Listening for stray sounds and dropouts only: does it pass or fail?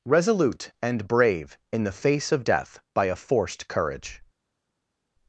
pass